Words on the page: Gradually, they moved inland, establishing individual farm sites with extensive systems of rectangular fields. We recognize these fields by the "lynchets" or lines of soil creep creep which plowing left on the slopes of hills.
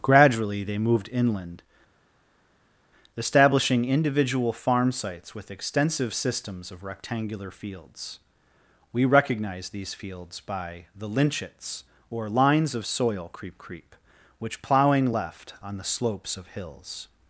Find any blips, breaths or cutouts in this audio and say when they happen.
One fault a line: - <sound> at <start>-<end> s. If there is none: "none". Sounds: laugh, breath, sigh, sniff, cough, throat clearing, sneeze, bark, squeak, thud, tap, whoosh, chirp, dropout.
none